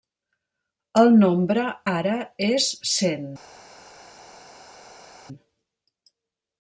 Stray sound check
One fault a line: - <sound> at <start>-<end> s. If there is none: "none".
none